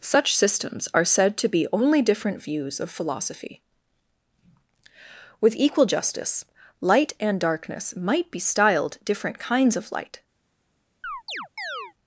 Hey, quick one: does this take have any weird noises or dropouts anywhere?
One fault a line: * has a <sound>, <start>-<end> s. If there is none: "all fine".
* has a chirp, 11.0-11.9 s